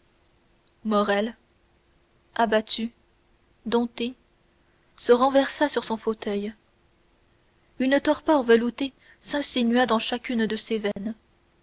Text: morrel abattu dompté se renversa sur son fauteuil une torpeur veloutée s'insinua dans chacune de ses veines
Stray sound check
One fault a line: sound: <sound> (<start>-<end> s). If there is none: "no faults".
sound: dropout (10.9-11.0 s)